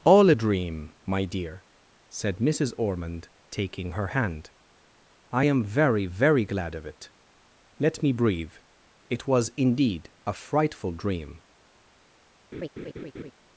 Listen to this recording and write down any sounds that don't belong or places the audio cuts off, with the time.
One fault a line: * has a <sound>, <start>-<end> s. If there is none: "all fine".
* has a laugh, 12.5-13.3 s